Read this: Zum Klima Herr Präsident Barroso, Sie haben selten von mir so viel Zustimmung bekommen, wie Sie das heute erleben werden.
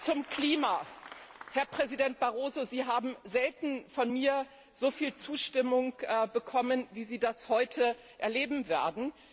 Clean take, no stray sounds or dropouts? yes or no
yes